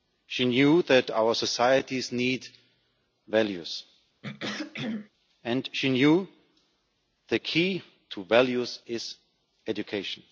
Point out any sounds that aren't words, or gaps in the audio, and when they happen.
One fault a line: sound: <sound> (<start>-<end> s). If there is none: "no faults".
sound: throat clearing (4.2-5.1 s)